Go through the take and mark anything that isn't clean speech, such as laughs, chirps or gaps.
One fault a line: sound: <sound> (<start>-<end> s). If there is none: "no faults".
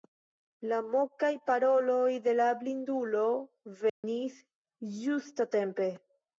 sound: dropout (3.9-4.0 s)